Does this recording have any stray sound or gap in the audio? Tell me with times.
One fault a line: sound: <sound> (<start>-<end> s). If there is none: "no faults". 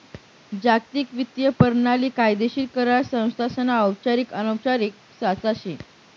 no faults